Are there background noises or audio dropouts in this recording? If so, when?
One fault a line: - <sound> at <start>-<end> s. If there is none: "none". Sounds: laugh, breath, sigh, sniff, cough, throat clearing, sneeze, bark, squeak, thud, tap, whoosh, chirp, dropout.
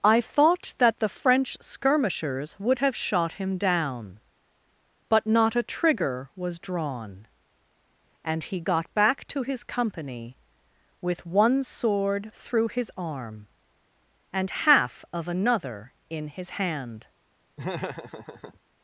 - laugh at 17.6-18.6 s